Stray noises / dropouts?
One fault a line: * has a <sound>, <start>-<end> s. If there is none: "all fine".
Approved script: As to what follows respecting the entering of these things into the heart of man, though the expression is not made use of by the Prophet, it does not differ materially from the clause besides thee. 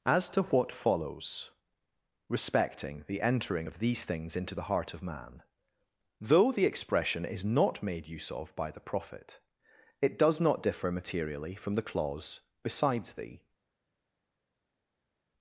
all fine